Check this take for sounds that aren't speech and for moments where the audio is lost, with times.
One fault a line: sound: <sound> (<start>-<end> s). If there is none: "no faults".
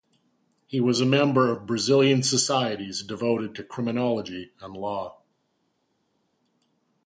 no faults